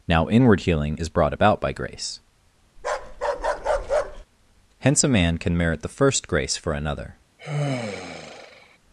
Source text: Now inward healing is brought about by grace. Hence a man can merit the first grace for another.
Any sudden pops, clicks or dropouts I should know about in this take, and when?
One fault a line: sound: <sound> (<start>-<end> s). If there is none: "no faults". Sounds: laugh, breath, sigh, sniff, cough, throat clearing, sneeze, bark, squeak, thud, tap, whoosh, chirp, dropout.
sound: bark (2.8-4.3 s)
sound: sigh (7.4-8.8 s)